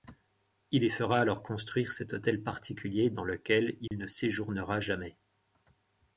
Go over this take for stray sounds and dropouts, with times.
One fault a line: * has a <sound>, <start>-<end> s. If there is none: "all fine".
* has a dropout, 3.9-3.9 s